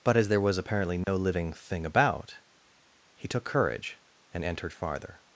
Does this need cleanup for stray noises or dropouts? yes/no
yes